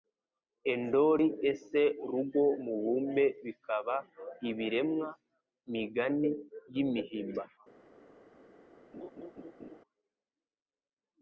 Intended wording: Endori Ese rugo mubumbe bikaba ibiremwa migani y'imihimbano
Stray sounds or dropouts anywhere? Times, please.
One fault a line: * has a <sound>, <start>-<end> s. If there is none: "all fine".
* has a laugh, 8.9-9.8 s